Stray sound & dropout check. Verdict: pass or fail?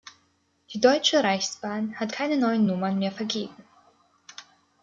pass